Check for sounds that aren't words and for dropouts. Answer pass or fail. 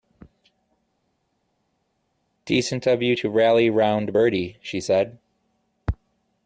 pass